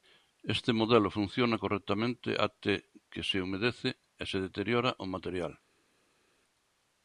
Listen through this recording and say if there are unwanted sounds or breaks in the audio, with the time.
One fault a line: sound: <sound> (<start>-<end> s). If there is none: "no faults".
no faults